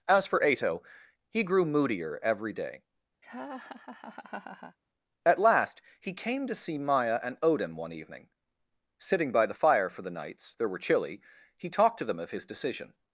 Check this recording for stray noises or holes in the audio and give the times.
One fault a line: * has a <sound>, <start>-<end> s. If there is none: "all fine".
* has a laugh, 3.2-4.8 s